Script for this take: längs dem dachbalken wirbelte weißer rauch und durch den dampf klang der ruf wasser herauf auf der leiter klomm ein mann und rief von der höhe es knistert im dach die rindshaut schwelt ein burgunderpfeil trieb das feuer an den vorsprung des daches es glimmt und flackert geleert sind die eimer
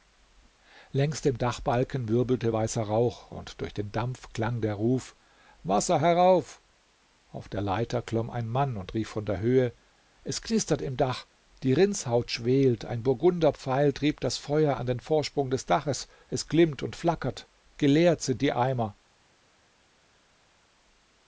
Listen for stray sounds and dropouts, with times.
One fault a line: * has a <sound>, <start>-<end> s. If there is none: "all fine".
all fine